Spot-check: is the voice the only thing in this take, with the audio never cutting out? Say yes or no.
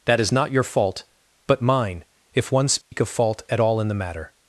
no